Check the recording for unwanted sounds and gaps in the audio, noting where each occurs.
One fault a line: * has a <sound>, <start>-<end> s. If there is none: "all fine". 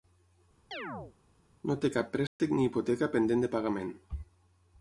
* has a chirp, 0.7-1.2 s
* has a dropout, 2.3-2.4 s